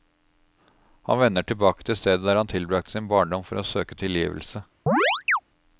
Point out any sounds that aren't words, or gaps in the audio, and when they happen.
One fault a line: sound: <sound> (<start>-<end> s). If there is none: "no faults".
sound: chirp (4.9-5.4 s)